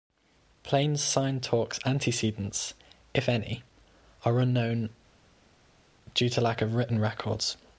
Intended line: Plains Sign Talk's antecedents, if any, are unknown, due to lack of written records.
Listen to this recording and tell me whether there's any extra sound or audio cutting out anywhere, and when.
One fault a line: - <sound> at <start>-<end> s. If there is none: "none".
none